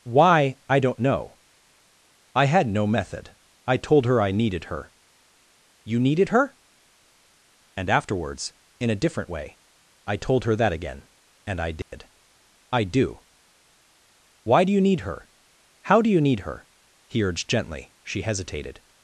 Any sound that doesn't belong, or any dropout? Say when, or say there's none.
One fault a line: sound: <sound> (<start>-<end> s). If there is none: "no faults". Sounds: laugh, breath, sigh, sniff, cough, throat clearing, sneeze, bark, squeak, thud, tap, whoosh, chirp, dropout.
sound: dropout (11.8-11.9 s)